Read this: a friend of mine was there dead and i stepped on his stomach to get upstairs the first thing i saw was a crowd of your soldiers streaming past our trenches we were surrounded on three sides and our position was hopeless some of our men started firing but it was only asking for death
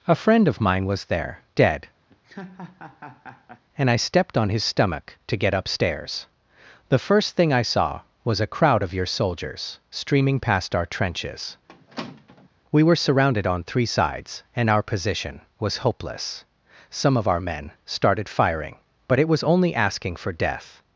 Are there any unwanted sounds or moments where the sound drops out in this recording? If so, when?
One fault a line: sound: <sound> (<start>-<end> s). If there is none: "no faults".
sound: laugh (2.1-3.6 s)
sound: squeak (11.7-12.5 s)